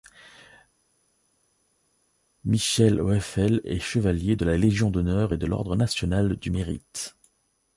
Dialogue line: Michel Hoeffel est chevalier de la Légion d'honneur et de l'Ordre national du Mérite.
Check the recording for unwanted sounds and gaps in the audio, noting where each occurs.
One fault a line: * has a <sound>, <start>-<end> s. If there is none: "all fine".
all fine